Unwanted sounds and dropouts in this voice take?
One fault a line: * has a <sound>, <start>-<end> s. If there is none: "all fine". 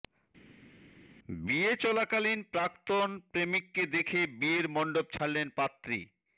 all fine